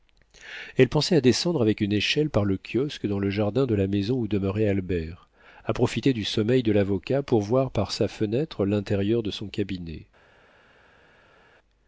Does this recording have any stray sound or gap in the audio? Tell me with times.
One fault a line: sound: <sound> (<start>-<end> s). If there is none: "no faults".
no faults